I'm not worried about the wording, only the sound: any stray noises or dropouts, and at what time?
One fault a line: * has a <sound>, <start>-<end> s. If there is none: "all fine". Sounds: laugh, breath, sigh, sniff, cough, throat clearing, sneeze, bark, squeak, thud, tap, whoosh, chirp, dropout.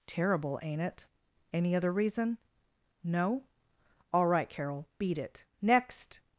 all fine